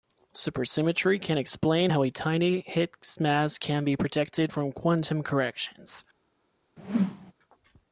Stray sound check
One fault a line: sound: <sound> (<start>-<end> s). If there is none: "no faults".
sound: whoosh (6.8-7.3 s)